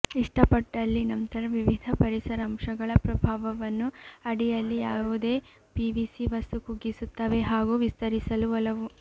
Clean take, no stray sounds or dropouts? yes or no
yes